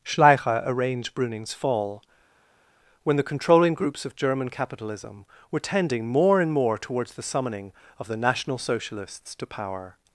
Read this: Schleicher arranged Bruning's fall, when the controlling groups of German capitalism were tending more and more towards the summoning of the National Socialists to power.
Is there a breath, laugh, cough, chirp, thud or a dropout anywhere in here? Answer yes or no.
no